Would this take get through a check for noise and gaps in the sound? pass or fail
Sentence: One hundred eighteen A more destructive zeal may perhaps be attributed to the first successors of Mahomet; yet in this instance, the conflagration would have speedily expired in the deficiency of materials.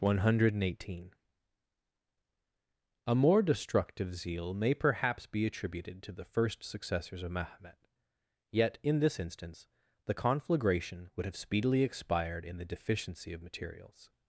pass